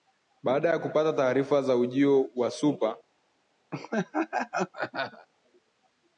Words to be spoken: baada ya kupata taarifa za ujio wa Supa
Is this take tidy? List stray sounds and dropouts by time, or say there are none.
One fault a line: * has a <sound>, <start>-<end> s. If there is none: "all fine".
* has a laugh, 3.7-5.3 s